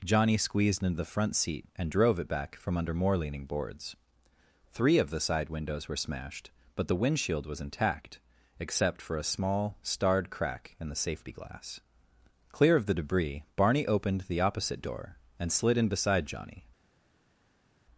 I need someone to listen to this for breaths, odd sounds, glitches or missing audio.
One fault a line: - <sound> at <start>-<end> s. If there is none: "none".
none